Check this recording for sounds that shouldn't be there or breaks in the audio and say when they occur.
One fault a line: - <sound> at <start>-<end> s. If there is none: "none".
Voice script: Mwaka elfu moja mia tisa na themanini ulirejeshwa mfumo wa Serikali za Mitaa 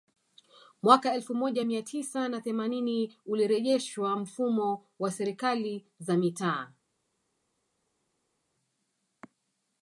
none